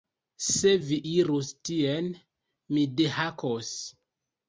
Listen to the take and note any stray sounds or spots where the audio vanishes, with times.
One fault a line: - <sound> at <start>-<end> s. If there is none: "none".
none